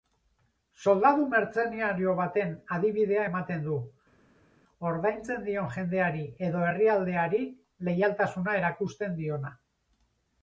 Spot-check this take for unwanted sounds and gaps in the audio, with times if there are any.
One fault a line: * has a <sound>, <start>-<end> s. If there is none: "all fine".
all fine